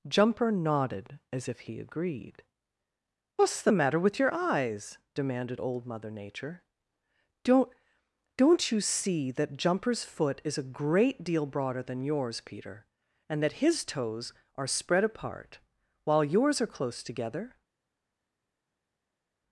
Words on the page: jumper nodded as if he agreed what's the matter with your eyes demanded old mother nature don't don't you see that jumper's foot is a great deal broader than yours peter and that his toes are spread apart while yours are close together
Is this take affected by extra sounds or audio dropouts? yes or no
no